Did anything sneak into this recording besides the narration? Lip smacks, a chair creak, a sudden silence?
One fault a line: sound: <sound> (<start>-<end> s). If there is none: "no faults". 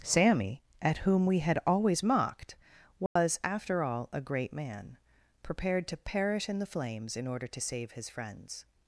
sound: dropout (3.1-3.2 s)